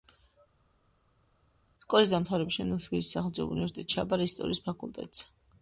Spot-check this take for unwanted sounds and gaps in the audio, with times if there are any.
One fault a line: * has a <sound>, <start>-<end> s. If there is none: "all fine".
all fine